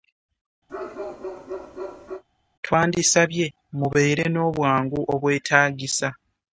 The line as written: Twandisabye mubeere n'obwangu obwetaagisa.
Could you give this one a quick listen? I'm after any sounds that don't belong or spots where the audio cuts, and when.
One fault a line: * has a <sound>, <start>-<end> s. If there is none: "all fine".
* has a bark, 0.7-2.2 s